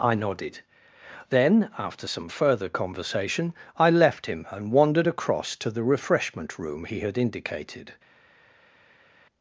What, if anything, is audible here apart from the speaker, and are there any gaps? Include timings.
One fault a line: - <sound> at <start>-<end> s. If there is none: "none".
none